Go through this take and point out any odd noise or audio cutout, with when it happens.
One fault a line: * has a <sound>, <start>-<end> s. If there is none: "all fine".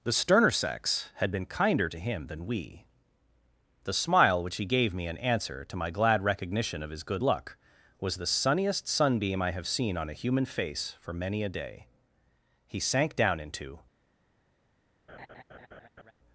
* has a laugh, 15.1-16.1 s